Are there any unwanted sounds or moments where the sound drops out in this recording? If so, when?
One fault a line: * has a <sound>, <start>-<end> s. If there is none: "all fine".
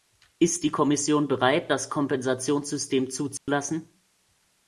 * has a dropout, 3.4-3.5 s